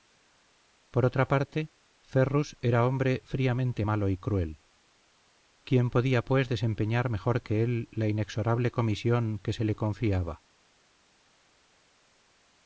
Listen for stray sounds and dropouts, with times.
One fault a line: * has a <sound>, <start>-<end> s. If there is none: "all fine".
all fine